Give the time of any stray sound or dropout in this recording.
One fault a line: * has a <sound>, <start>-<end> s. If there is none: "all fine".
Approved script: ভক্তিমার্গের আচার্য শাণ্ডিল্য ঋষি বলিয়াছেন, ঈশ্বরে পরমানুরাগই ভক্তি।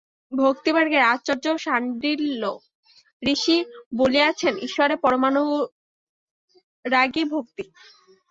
all fine